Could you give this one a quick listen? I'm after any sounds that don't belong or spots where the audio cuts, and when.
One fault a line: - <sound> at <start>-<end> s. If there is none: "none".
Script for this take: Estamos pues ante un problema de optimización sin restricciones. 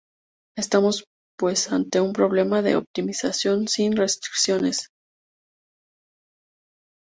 none